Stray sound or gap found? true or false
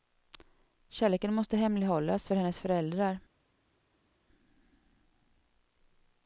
false